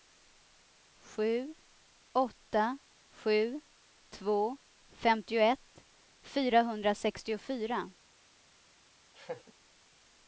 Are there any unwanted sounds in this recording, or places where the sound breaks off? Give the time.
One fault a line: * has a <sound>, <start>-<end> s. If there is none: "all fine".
* has a laugh, 9.1-9.5 s